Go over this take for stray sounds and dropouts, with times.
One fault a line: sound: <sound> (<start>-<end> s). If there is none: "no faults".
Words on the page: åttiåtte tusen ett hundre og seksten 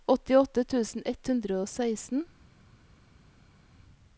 no faults